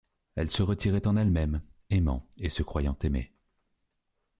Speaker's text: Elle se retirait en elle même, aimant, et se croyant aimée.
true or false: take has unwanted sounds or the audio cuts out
false